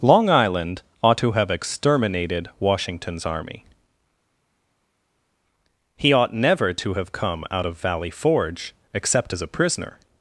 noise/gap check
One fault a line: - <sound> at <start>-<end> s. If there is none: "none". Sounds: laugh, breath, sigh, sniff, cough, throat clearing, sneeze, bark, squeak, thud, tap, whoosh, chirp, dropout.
none